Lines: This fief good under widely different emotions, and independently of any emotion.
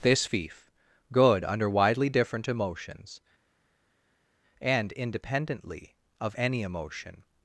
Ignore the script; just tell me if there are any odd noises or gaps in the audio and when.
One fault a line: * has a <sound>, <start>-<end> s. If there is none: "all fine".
all fine